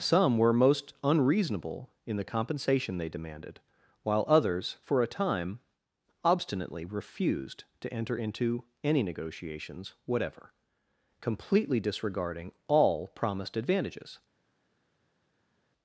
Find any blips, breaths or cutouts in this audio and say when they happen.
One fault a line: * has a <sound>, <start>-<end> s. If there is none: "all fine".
all fine